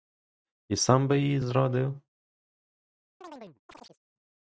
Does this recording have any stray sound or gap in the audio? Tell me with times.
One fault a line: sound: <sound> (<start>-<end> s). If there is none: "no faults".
sound: chirp (3.2-4.0 s)